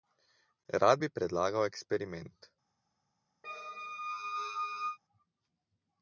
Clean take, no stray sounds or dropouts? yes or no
no